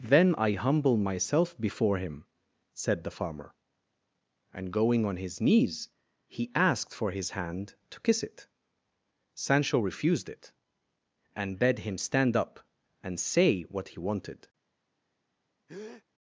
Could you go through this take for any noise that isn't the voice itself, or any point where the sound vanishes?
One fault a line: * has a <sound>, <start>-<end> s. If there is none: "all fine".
* has a breath, 15.7-16.0 s